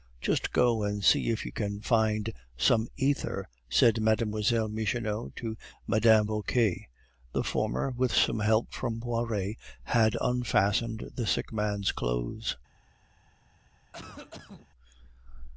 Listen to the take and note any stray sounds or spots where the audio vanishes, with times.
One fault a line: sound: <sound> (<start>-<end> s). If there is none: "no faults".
sound: cough (13.9-14.7 s)